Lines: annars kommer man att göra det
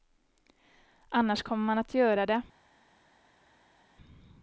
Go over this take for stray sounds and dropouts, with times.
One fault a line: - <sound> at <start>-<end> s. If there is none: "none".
none